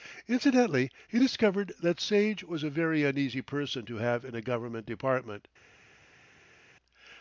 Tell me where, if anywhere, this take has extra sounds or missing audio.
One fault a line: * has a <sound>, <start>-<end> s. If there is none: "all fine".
all fine